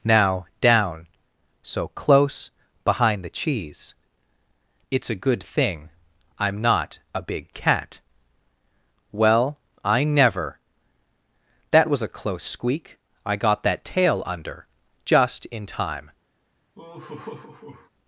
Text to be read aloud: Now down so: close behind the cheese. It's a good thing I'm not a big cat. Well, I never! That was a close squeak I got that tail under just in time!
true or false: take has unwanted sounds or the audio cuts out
true